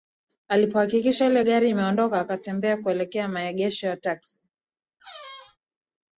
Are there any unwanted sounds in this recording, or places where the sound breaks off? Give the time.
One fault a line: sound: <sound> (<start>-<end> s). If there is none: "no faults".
sound: squeak (5.0-5.6 s)